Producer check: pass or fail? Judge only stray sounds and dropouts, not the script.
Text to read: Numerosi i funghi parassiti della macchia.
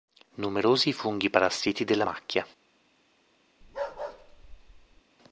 fail